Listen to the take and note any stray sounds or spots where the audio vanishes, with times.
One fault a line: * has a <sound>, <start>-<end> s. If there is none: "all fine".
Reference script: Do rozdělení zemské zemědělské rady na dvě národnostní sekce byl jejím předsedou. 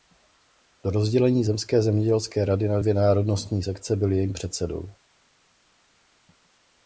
all fine